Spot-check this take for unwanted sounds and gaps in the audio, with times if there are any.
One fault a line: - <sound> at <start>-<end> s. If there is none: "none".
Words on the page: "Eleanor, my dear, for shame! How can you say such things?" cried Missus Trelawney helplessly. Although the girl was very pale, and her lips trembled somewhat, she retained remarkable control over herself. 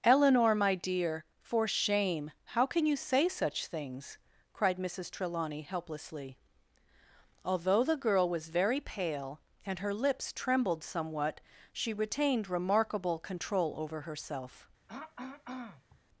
- throat clearing at 14.9-16.0 s